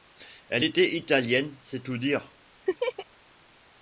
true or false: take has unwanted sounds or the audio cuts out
true